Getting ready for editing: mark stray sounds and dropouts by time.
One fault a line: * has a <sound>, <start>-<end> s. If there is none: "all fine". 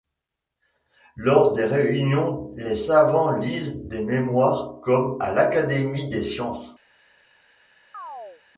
* has a chirp, 7.9-8.4 s